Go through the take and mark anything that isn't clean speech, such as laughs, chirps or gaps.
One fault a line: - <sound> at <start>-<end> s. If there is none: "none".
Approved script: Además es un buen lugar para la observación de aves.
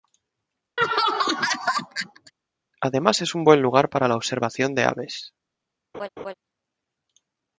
- laugh at 0.8-2.3 s
- laugh at 5.9-6.3 s